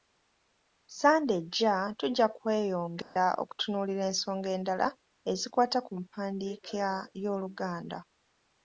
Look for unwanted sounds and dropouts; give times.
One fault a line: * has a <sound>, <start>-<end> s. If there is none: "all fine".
* has a dropout, 3.0-3.2 s